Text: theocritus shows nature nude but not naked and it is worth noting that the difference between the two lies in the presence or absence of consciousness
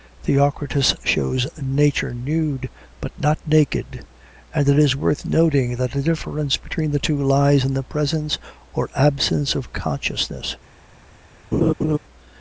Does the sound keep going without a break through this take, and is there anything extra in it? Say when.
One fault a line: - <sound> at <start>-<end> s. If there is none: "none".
- laugh at 11.5-12.0 s